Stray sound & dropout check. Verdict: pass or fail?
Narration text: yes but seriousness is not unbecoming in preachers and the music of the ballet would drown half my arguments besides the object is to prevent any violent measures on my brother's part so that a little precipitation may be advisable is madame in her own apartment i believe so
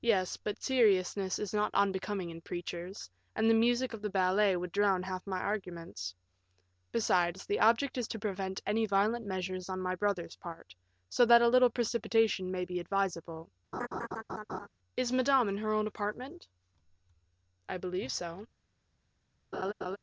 fail